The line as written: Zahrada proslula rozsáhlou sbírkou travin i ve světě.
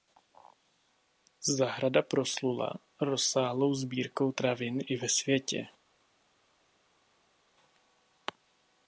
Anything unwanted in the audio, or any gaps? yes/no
no